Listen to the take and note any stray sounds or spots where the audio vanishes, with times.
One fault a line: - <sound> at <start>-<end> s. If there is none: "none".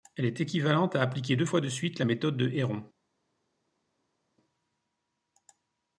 none